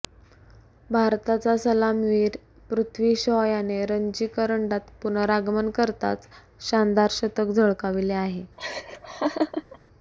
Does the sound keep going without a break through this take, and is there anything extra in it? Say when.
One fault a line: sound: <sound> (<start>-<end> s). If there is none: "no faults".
sound: laugh (8.6-9.8 s)